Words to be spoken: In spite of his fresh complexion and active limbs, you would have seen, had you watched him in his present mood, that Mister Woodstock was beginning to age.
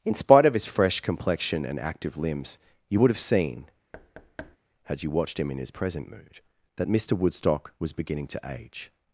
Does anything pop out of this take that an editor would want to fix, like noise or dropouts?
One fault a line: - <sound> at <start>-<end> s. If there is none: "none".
- thud at 3.9-4.6 s